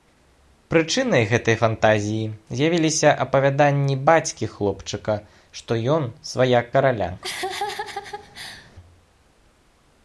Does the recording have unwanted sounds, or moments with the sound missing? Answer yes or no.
yes